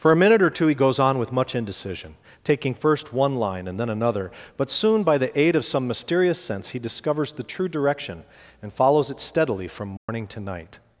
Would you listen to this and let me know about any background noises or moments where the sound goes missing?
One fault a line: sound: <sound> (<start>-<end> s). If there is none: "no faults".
sound: dropout (10.0-10.1 s)